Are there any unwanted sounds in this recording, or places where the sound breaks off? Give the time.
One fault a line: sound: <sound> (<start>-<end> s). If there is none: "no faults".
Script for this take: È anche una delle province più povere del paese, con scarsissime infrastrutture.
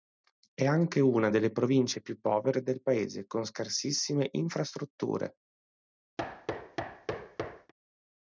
sound: thud (6.2-7.7 s)